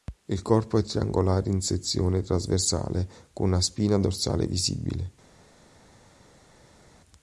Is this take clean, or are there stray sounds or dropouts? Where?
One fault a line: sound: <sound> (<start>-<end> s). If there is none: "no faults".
no faults